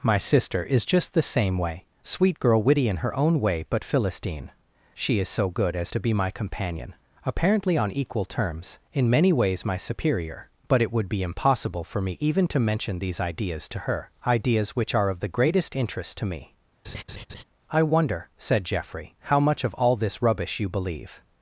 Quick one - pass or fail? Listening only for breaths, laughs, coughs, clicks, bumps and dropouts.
fail